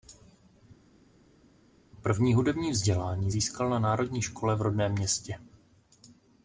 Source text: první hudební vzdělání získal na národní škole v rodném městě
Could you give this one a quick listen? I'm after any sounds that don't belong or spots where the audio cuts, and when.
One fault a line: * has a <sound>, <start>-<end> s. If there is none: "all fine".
all fine